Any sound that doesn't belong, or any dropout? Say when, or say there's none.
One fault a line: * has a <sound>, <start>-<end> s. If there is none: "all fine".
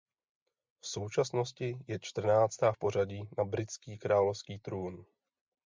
all fine